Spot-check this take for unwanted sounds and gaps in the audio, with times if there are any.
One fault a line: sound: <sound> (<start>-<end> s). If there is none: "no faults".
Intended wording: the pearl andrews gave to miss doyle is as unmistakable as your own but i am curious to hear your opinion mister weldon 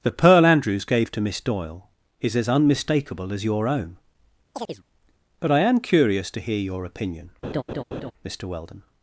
sound: chirp (4.5-4.8 s)
sound: laugh (7.4-8.1 s)